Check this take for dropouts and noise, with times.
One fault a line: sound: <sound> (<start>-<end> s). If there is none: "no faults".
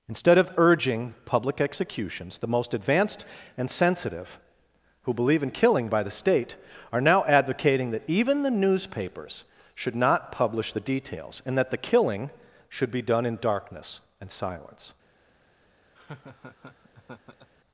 sound: laugh (15.9-17.5 s)